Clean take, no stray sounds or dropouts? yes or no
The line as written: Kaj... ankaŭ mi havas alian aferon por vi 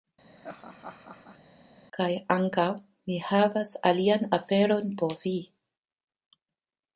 no